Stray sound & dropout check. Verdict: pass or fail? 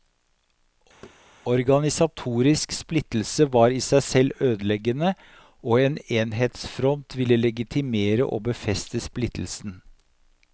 fail